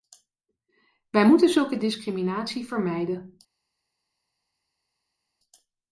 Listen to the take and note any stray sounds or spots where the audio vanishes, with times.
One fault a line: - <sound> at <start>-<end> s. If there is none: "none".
none